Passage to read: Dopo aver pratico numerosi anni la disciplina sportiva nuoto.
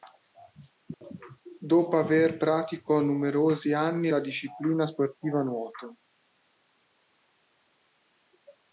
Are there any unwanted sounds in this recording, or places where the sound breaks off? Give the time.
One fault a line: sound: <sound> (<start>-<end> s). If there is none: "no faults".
no faults